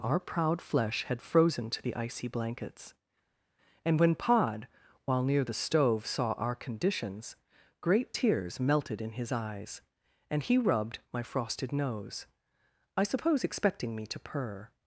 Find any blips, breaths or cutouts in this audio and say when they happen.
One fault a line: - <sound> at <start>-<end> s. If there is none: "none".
none